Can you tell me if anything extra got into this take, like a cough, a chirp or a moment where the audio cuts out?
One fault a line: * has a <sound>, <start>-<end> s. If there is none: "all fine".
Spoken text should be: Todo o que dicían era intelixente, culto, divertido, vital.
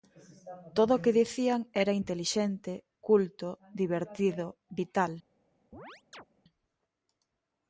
* has a chirp, 5.7-6.3 s